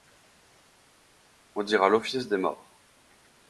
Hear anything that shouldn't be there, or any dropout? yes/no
no